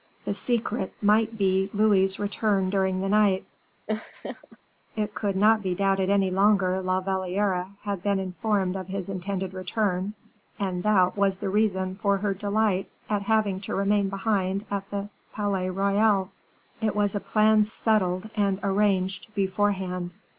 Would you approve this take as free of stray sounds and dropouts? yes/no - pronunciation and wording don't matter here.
no